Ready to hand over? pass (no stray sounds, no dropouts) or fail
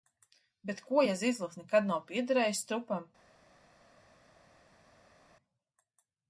pass